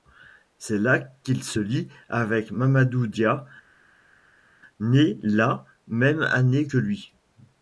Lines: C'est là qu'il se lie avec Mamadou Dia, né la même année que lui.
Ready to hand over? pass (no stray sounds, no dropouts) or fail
pass